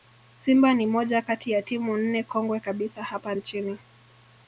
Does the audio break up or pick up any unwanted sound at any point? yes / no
no